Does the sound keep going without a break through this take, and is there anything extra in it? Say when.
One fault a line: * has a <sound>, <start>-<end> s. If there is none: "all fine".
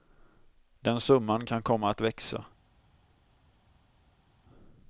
all fine